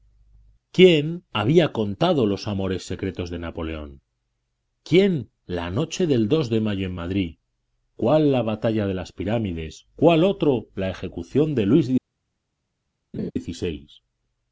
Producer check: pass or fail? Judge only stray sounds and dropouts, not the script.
fail